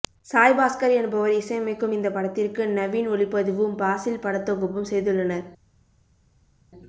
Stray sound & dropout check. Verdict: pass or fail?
pass